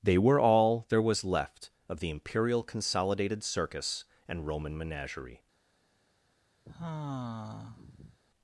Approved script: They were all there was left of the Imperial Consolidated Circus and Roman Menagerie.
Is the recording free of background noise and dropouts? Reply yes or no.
no